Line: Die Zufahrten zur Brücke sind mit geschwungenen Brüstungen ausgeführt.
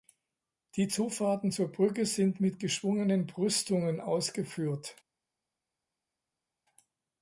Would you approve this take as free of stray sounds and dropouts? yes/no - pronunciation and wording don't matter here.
yes